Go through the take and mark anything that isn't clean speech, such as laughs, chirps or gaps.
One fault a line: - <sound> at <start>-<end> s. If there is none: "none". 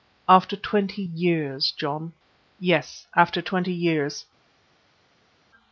none